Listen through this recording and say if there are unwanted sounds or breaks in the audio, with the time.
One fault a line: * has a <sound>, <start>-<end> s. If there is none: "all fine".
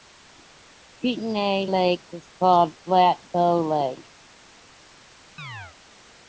* has a chirp, 5.4-5.8 s